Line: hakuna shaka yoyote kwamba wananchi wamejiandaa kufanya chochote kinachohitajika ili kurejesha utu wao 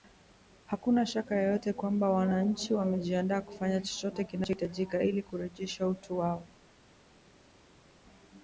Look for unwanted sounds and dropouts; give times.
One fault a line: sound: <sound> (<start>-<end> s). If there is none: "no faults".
no faults